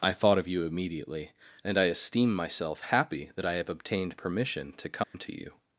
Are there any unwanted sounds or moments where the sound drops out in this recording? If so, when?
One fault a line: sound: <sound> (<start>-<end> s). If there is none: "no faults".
sound: dropout (5.0-5.1 s)